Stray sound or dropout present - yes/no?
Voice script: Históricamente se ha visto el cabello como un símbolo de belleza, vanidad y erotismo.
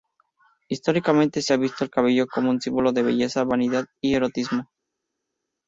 no